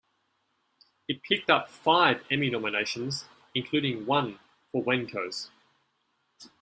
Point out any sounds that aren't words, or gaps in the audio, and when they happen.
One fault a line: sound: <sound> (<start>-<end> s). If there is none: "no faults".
no faults